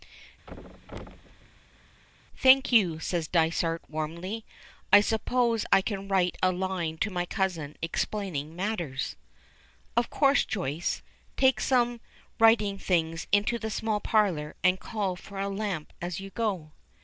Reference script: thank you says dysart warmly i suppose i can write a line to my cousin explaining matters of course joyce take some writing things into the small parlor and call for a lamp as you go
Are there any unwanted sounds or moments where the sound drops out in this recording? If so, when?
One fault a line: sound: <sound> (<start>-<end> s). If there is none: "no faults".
sound: thud (0.5-2.0 s)